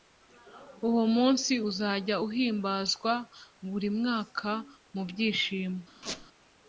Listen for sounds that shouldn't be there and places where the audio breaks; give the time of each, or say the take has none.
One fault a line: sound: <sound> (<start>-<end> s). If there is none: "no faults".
sound: squeak (6.0-6.3 s)